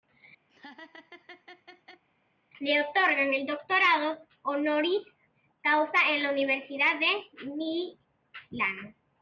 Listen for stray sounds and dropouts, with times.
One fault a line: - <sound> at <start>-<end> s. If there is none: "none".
- laugh at 0.5-2.0 s